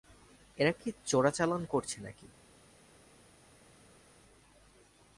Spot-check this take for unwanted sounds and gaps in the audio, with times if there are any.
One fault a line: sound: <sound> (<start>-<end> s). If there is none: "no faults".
no faults